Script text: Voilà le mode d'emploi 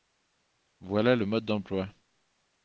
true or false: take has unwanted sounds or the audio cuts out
false